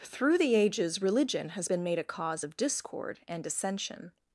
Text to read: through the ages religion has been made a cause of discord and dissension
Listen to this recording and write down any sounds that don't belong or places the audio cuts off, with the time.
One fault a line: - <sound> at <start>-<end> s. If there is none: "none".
none